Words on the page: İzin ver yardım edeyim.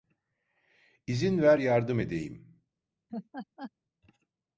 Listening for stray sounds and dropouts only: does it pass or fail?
fail